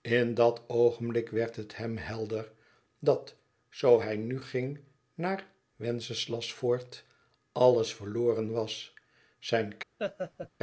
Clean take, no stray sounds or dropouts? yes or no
no